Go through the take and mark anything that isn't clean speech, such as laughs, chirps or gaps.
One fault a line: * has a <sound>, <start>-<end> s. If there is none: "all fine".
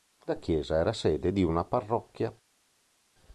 all fine